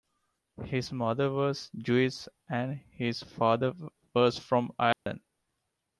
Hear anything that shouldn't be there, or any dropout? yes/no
yes